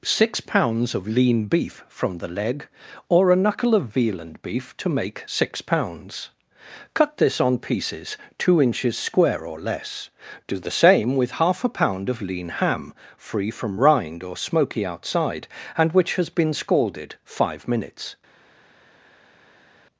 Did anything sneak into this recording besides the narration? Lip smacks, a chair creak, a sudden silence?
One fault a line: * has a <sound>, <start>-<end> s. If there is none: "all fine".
all fine